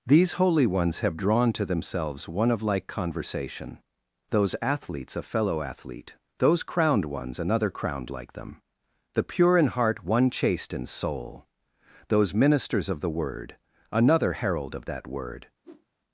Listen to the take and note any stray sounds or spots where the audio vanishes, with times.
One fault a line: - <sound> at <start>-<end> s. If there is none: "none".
- whoosh at 15.6-15.9 s